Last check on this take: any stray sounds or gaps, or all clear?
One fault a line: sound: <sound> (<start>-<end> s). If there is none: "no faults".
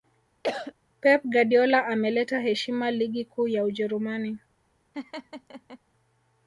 sound: cough (0.4-0.7 s)
sound: laugh (4.9-5.8 s)